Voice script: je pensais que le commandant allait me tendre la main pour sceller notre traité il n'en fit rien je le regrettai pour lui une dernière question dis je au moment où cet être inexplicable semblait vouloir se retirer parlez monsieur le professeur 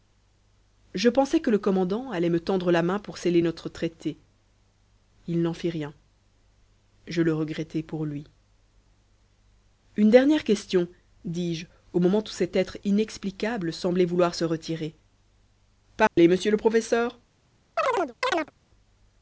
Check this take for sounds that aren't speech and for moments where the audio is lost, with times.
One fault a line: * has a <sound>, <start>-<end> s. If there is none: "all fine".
* has a dropout, 16.1-16.2 s
* has a chirp, 17.8-18.5 s